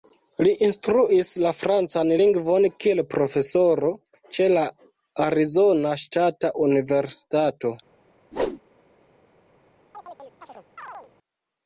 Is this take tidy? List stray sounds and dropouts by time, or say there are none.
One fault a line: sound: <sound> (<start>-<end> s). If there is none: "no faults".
sound: whoosh (8.3-8.6 s)
sound: chirp (9.9-11.1 s)